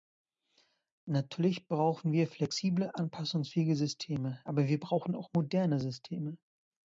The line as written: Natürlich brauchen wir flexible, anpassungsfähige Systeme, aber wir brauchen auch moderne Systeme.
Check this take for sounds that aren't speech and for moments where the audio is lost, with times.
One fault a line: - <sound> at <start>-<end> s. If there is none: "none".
none